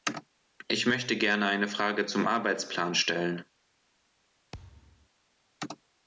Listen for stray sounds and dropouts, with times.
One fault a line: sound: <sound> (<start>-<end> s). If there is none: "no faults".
sound: thud (4.5-5.1 s)